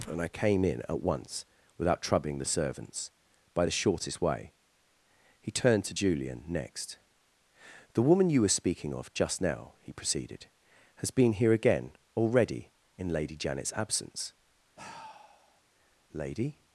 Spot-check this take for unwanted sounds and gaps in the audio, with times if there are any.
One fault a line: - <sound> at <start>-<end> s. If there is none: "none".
- sigh at 14.8-15.6 s